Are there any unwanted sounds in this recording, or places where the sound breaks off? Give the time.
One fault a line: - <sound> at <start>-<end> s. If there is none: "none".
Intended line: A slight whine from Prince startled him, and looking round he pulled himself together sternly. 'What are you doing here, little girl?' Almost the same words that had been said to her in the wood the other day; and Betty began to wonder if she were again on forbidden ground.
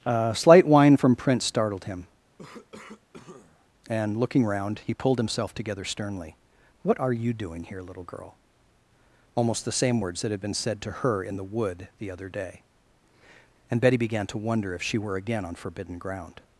- cough at 2.4-3.7 s